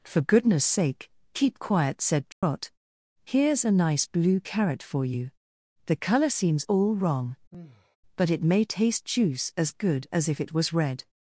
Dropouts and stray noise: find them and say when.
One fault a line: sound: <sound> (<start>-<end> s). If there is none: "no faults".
sound: dropout (2.3-2.4 s)
sound: sigh (7.5-8.0 s)